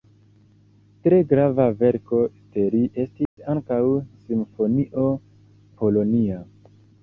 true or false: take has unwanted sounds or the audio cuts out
true